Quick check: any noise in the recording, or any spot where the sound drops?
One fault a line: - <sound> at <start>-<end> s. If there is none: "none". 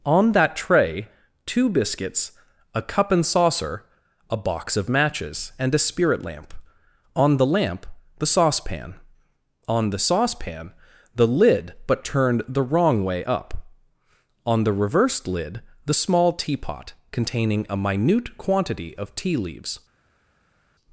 none